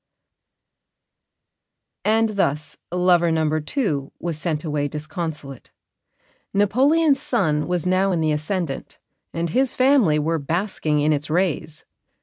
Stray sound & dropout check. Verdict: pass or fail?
pass